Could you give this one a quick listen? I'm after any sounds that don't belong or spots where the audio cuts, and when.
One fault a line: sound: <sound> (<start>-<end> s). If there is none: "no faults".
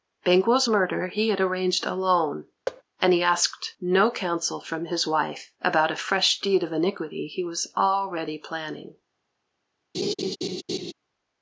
sound: thud (2.7-2.8 s)
sound: laugh (9.9-10.9 s)